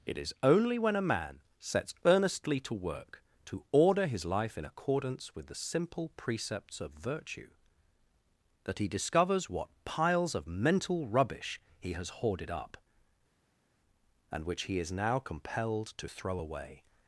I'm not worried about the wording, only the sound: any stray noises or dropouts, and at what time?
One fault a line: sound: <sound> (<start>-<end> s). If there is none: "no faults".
no faults